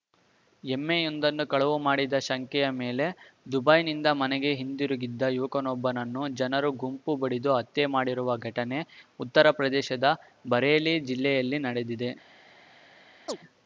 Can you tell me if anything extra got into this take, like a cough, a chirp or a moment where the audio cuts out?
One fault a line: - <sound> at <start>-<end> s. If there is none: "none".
- chirp at 13.3-13.4 s